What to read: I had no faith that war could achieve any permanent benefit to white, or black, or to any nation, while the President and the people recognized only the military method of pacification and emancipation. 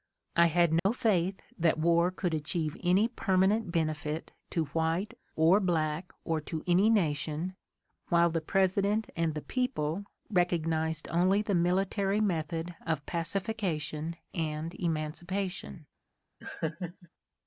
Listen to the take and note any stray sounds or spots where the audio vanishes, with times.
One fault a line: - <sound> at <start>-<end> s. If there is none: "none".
- dropout at 0.8-0.9 s
- laugh at 16.4-17.1 s